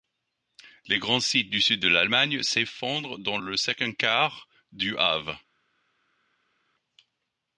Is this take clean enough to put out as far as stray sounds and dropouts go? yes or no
yes